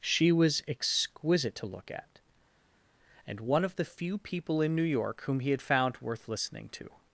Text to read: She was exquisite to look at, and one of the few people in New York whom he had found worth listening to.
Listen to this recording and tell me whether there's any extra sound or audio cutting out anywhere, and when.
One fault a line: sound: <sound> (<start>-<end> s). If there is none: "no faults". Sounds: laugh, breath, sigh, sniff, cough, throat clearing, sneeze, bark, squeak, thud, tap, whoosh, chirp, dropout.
no faults